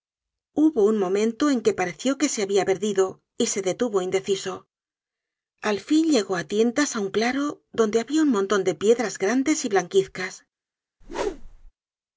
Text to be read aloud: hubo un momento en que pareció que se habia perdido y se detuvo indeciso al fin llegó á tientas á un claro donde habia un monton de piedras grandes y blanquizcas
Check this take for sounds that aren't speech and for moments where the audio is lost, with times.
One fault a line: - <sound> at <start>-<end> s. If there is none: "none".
- whoosh at 11.0-11.7 s